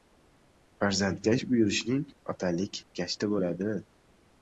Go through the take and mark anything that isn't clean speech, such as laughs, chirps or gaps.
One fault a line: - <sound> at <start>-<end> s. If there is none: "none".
none